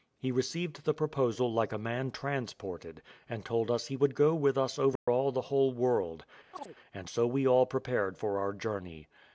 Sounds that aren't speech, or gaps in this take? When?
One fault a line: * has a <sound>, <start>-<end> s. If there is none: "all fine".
* has a dropout, 5.0-5.1 s
* has a chirp, 6.5-6.8 s